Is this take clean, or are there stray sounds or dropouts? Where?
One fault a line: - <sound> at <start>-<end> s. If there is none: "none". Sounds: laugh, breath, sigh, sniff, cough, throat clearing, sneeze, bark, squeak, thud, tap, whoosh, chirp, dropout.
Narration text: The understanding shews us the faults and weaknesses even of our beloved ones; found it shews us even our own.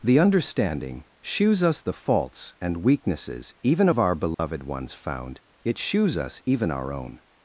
- dropout at 4.3-4.4 s